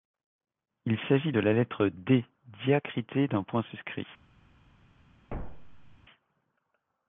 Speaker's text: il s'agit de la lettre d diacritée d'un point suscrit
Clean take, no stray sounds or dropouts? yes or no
no